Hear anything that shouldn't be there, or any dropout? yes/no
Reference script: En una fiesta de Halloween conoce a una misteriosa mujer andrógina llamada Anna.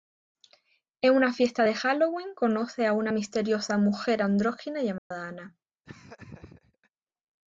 yes